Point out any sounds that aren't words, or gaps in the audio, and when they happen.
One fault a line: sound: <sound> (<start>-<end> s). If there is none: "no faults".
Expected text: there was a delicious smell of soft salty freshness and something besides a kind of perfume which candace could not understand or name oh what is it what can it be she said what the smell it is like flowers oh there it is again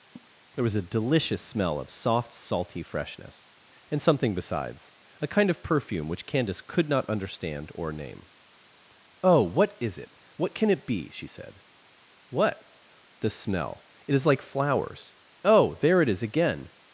sound: laugh (0.2-0.3 s)